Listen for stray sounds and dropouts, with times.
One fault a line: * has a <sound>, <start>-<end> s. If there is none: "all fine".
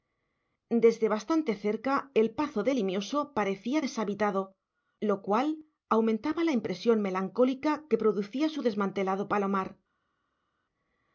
all fine